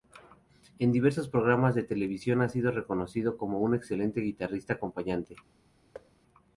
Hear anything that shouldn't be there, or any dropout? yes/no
yes